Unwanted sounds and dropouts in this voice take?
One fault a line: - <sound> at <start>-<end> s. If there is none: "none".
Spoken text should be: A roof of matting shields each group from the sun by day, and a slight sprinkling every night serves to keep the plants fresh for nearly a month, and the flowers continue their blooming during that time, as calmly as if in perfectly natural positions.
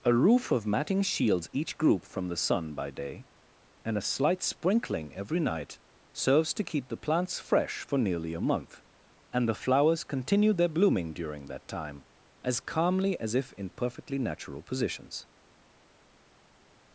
none